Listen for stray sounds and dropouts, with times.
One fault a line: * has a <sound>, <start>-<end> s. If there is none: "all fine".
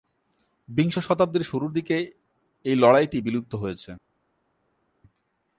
all fine